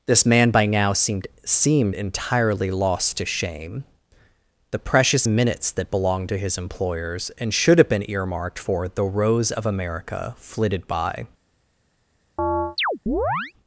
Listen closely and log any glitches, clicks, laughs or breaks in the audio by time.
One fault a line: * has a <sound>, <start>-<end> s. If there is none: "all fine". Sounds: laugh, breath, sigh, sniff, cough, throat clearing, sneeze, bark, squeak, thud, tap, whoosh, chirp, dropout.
* has a chirp, 12.4-13.5 s